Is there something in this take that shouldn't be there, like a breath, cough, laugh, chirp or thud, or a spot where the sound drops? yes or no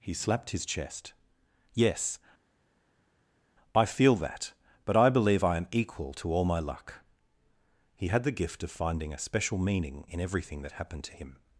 no